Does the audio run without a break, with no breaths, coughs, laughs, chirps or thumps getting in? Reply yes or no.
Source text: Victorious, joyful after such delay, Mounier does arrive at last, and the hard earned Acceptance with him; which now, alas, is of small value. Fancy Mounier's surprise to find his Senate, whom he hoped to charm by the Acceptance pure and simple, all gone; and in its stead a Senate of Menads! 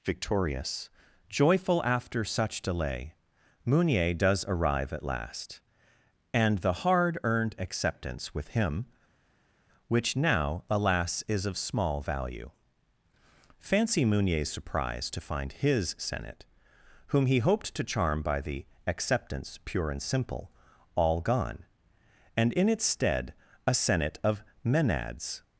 yes